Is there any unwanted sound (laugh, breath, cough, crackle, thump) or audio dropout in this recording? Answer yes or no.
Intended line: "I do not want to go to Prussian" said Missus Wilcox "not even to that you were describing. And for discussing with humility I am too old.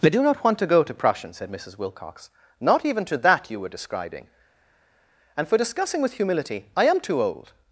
no